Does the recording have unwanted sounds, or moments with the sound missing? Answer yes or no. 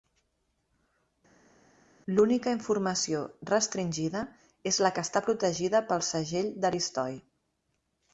no